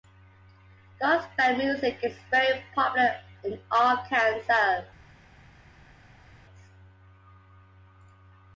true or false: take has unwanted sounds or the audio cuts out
false